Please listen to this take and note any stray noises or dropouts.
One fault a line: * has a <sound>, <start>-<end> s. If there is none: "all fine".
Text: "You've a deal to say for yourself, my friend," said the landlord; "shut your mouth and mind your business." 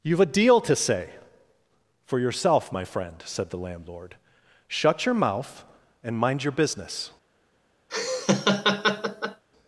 * has a laugh, 7.9-9.4 s